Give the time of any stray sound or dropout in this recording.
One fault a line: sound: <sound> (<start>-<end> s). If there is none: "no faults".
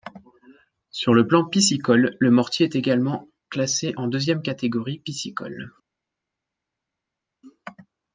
no faults